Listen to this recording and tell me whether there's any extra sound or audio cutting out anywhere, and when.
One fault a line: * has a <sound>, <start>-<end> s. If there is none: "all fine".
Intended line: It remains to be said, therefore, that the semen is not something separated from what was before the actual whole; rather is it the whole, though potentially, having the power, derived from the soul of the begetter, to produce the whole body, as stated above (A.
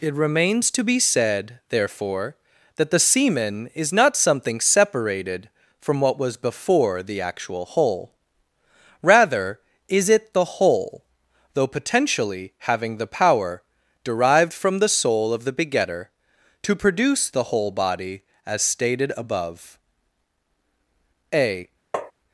* has a tap, 21.9-22.1 s